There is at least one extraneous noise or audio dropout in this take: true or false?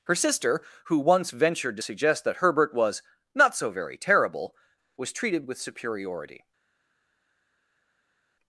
false